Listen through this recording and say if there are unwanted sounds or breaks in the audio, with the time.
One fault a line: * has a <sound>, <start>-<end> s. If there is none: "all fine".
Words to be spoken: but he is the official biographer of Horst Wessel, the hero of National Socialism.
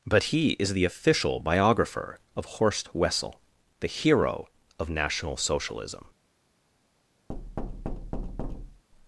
* has a thud, 7.3-8.8 s